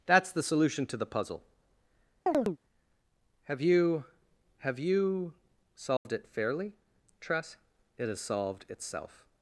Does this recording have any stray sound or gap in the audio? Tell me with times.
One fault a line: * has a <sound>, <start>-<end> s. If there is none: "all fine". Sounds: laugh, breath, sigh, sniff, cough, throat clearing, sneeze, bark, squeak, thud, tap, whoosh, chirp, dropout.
* has a chirp, 2.3-2.6 s
* has a dropout, 6.0-6.1 s